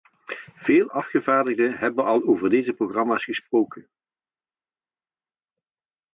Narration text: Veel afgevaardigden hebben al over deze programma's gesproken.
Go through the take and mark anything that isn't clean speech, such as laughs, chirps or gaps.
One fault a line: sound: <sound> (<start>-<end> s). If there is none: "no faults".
no faults